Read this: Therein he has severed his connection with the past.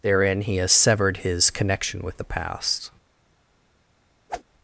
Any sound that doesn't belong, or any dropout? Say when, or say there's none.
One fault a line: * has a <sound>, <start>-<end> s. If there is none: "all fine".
* has a whoosh, 4.3-4.4 s